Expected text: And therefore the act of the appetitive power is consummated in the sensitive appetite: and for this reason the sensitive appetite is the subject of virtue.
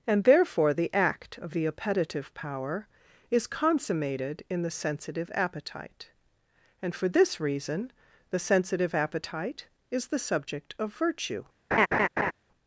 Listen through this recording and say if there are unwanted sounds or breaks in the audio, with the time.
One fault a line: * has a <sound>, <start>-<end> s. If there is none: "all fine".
* has a laugh, 11.7-12.3 s